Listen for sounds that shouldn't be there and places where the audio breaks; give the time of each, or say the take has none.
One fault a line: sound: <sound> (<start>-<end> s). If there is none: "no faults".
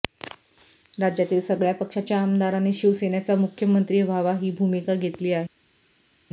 no faults